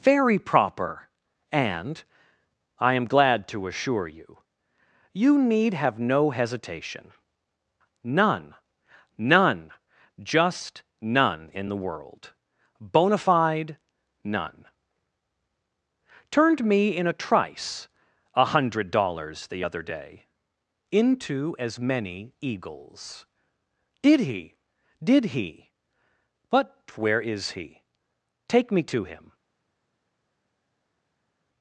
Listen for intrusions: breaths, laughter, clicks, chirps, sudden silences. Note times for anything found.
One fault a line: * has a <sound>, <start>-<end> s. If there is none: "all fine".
all fine